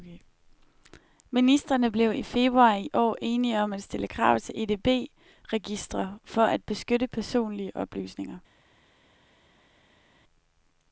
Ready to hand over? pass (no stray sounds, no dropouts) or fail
pass